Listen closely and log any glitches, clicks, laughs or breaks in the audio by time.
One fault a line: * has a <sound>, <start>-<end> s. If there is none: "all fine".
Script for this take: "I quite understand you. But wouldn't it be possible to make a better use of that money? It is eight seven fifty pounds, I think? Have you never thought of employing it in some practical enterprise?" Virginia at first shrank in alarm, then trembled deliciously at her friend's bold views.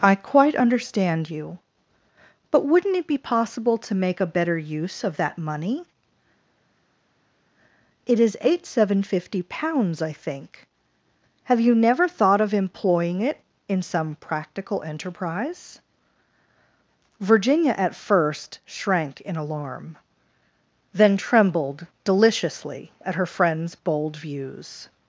all fine